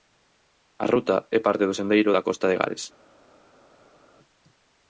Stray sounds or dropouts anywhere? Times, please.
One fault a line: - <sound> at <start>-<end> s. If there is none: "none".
none